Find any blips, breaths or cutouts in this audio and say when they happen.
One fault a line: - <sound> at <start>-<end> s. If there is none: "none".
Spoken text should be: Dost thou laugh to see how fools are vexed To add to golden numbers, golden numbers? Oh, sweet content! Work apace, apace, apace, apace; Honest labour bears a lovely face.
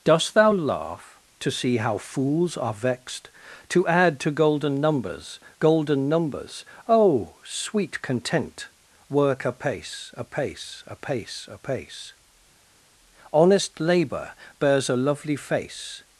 none